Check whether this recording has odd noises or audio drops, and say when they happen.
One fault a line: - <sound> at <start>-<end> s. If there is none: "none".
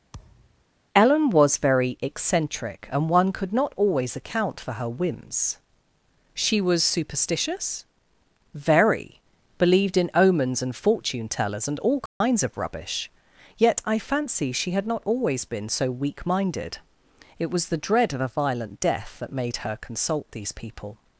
- thud at 0.1-0.6 s
- dropout at 12.1-12.2 s